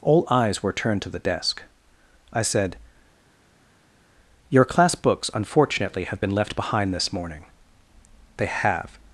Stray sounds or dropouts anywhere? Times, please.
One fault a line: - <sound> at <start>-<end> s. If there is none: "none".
none